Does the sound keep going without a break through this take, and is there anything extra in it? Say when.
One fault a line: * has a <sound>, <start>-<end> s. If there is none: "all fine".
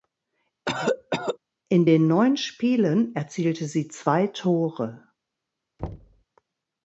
* has a cough, 0.7-1.4 s
* has a thud, 5.8-6.2 s